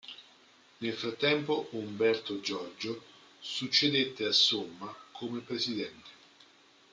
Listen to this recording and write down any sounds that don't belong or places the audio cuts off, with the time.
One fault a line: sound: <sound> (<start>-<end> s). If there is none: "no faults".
no faults